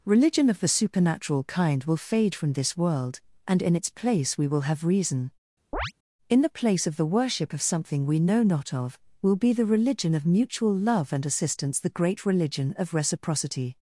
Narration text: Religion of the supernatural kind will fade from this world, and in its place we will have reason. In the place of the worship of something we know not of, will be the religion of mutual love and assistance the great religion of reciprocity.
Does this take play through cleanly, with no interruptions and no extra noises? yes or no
no